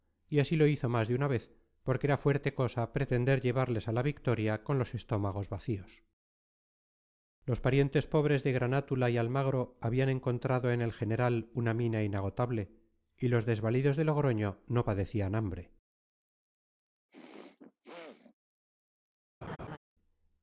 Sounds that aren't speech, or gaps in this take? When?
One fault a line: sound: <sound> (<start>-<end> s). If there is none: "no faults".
sound: throat clearing (17.1-18.3 s)
sound: laugh (19.4-19.8 s)